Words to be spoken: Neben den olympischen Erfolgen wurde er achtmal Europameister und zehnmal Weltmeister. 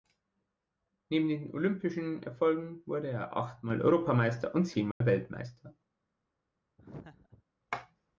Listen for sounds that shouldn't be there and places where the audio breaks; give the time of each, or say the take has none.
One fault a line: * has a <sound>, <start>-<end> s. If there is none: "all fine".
* has a dropout, 4.9-5.0 s
* has a laugh, 6.8-7.4 s